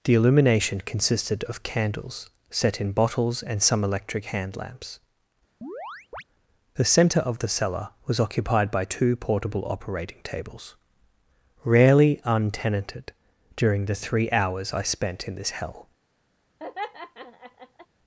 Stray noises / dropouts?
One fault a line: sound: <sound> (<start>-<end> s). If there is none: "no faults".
sound: chirp (5.6-6.2 s)
sound: laugh (16.6-17.9 s)